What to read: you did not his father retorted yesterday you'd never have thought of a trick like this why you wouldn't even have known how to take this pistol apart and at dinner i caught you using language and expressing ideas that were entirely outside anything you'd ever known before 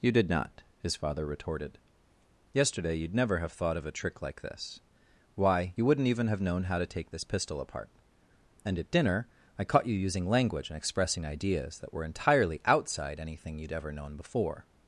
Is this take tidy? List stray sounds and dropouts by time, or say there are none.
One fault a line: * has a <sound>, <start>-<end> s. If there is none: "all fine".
all fine